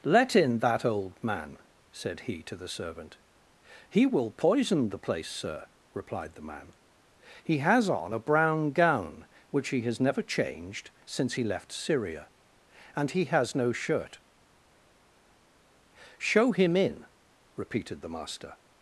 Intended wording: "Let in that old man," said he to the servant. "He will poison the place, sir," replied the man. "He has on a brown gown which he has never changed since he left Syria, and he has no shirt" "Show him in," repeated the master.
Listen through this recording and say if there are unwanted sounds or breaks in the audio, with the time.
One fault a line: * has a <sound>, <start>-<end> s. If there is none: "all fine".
all fine